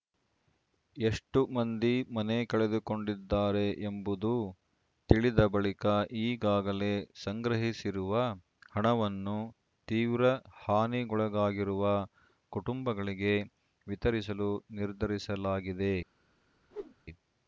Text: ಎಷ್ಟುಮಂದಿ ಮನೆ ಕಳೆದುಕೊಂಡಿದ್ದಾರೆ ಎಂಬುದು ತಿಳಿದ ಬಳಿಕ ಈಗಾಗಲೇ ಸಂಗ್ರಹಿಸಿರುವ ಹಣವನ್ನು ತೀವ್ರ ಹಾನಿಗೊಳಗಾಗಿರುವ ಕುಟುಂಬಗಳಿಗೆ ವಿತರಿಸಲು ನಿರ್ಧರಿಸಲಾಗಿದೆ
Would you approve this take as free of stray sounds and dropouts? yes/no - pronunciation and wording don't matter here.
no